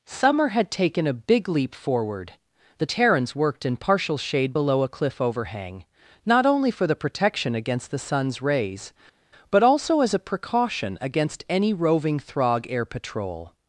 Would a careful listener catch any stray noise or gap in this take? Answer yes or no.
no